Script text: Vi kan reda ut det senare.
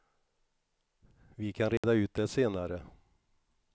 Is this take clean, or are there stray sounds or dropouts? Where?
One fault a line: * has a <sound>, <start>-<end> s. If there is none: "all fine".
* has a dropout, 1.8-1.8 s